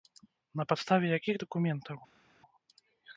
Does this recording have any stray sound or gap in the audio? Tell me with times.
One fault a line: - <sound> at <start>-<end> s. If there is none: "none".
none